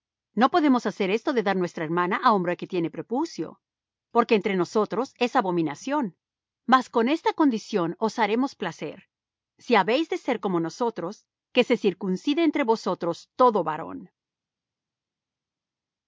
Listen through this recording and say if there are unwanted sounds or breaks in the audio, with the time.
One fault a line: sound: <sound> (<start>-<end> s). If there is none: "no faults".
no faults